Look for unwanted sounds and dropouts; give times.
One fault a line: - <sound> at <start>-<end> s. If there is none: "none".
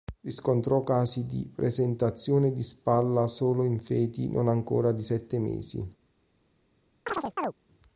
- chirp at 7.1-7.5 s